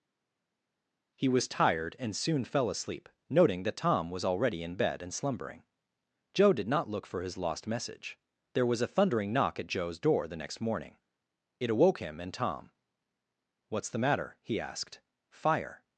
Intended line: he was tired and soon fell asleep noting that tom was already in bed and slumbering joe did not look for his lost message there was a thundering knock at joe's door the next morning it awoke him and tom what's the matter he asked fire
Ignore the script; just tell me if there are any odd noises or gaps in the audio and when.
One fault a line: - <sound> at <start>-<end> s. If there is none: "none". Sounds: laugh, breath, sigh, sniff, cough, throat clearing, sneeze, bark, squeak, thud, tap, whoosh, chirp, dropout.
none